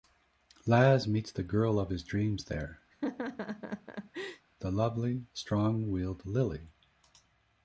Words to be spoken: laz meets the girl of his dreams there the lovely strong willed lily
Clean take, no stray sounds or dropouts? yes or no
no